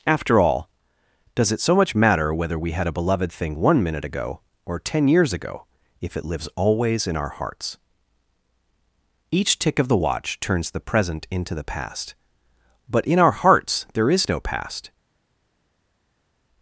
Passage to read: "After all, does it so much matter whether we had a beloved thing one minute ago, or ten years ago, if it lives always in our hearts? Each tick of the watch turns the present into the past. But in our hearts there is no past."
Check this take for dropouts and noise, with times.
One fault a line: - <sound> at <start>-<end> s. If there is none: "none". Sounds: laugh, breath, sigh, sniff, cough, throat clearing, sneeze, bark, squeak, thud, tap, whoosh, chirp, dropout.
none